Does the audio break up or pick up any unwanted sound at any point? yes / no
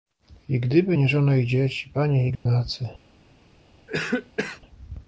yes